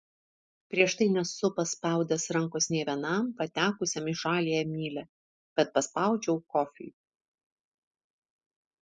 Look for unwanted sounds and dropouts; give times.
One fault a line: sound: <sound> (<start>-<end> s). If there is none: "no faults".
no faults